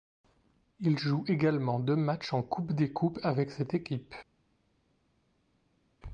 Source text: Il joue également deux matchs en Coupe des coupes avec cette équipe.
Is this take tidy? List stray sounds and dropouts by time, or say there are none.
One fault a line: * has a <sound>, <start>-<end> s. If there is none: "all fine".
all fine